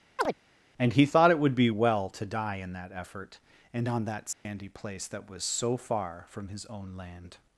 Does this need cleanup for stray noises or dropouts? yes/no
yes